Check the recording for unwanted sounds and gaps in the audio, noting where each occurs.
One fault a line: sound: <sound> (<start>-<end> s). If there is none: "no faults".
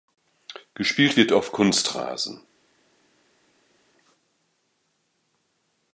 no faults